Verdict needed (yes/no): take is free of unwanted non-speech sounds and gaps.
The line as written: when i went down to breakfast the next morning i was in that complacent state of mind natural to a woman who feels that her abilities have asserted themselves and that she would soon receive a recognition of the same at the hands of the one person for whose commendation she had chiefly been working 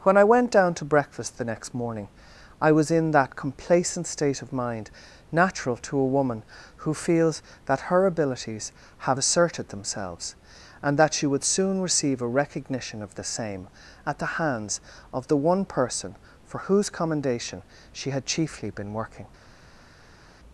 yes